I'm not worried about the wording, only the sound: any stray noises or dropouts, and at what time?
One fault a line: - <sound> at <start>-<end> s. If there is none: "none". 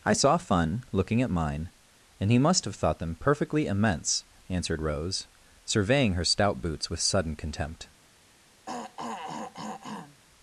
- throat clearing at 8.7-10.2 s